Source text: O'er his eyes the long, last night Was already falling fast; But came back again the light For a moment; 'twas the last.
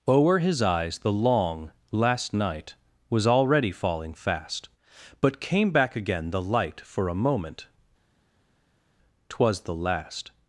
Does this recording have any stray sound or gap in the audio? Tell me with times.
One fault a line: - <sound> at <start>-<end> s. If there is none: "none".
none